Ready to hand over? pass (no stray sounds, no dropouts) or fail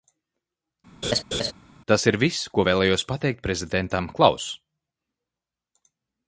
fail